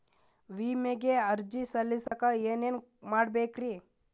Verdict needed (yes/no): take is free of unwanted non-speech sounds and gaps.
no